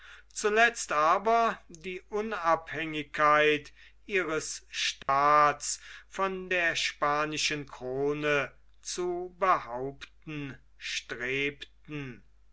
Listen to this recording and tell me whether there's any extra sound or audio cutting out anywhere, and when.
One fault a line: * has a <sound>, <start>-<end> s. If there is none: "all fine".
* has a dropout, 5.0-5.1 s